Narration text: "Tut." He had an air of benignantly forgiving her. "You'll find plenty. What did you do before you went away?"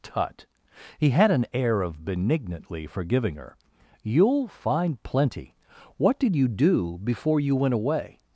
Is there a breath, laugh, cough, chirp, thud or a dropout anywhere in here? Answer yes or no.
no